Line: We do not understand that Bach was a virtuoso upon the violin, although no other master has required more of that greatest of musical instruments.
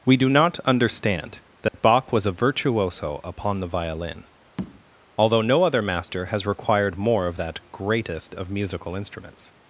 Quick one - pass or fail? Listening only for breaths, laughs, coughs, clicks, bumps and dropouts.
fail